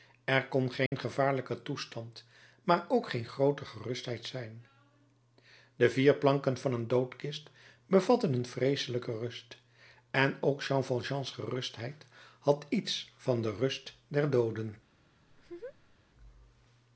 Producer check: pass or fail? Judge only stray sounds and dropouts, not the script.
fail